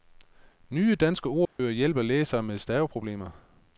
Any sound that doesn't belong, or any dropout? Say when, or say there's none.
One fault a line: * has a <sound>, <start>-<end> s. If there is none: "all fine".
* has a dropout, 1.4-1.6 s